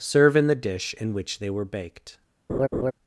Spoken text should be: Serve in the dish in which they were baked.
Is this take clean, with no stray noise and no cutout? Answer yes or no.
no